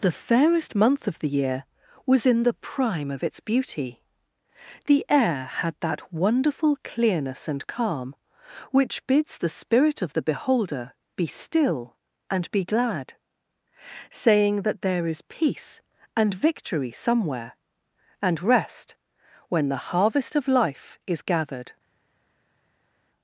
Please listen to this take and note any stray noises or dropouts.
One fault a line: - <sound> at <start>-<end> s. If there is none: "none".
none